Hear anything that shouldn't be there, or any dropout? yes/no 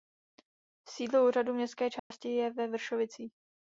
yes